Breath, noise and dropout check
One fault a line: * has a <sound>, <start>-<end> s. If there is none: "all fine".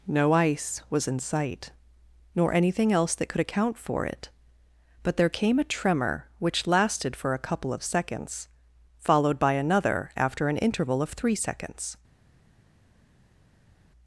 all fine